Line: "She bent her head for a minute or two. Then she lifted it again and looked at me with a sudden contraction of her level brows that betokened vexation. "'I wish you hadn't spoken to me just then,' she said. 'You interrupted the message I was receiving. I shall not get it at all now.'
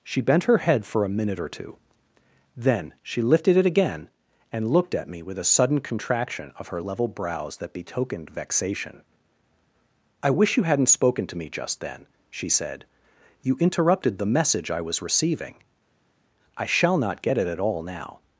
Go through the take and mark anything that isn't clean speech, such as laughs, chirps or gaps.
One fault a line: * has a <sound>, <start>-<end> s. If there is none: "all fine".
all fine